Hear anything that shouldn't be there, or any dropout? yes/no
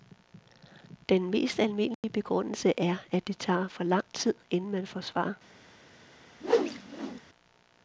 yes